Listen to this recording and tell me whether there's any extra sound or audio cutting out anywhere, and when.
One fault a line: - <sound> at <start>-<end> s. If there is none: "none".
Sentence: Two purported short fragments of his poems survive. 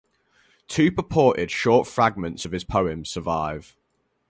none